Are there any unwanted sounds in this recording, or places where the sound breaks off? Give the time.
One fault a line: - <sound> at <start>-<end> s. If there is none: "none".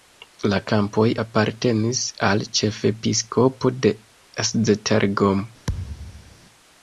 - thud at 5.7-6.3 s